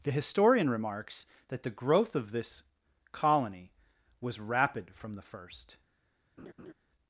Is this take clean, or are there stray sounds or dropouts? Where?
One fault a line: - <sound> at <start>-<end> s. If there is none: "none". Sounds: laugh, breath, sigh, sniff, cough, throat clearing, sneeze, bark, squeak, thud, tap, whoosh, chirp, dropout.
- laugh at 6.4-6.7 s